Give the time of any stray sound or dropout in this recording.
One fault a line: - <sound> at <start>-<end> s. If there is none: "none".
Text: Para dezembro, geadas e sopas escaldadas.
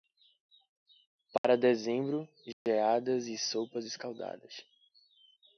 - dropout at 1.4-1.4 s
- dropout at 2.5-2.7 s